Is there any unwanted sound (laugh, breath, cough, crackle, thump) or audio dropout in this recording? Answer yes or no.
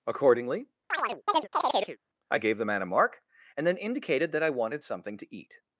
yes